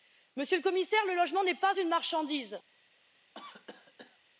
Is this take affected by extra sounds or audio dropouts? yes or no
yes